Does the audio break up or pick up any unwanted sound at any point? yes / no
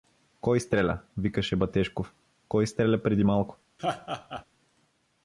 yes